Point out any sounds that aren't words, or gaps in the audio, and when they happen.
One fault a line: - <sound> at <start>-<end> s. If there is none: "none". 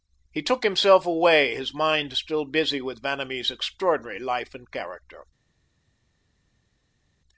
none